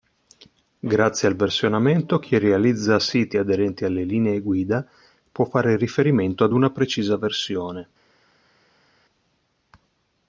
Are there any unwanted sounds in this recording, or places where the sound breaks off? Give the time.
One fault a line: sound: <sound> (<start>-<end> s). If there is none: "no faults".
no faults